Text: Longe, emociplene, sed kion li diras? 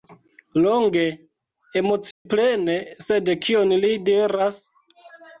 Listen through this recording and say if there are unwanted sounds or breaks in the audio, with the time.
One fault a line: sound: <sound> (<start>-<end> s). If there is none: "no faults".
sound: dropout (2.1-2.3 s)